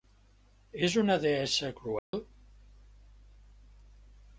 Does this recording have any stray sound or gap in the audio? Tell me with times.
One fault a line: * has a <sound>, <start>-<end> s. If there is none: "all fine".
* has a dropout, 2.0-2.1 s